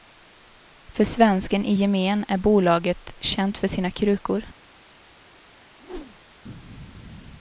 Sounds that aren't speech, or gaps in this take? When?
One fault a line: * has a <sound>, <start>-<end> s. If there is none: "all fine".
* has a whoosh, 5.8-6.3 s